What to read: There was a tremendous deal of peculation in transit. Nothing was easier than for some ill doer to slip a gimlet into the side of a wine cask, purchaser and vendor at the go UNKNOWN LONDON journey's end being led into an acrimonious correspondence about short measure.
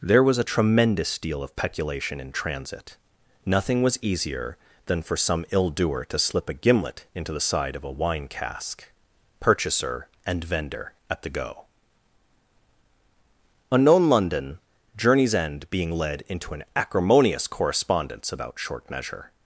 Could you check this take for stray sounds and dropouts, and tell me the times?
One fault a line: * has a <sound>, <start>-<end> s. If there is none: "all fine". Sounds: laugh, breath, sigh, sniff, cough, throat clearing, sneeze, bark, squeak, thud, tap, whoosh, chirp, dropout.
all fine